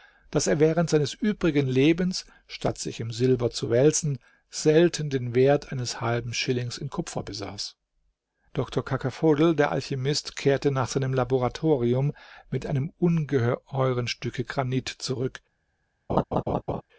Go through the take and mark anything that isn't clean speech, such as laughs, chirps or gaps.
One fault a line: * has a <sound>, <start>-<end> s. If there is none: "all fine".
* has a laugh, 16.1-16.8 s